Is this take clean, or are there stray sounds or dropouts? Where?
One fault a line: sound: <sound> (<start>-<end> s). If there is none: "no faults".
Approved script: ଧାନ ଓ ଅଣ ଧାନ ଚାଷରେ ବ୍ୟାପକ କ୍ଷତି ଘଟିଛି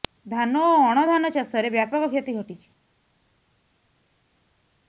no faults